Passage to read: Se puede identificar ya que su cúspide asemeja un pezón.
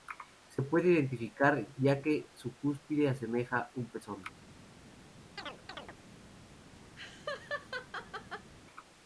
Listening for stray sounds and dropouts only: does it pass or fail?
fail